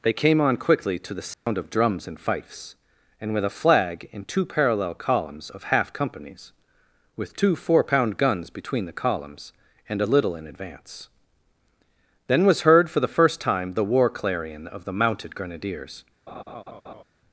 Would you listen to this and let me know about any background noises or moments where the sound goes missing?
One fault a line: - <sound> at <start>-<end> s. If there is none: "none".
- dropout at 1.3-1.5 s
- laugh at 16.3-17.0 s